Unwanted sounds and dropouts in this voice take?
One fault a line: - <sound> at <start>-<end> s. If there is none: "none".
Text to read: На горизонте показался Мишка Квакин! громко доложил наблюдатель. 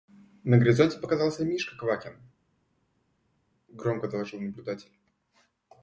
none